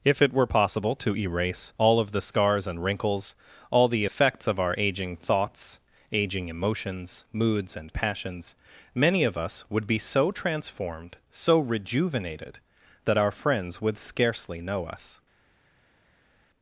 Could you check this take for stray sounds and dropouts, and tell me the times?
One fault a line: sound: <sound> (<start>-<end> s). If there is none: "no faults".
no faults